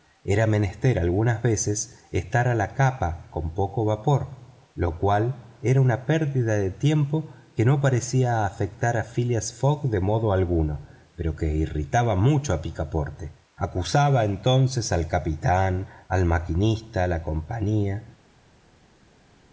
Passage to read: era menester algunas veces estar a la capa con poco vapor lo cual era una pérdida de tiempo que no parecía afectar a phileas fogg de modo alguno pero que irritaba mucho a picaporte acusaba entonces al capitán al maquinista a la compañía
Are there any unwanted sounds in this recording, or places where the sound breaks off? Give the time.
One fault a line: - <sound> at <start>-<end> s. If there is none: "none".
none